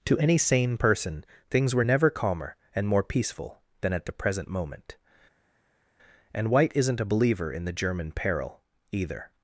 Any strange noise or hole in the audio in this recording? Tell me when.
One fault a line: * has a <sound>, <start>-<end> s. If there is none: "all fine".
all fine